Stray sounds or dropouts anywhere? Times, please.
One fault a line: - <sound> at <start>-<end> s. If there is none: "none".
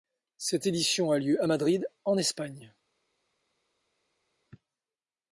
none